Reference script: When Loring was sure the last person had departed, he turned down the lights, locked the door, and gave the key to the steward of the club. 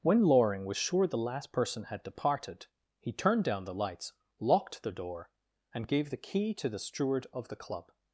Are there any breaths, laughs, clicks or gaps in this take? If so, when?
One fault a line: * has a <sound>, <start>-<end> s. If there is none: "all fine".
all fine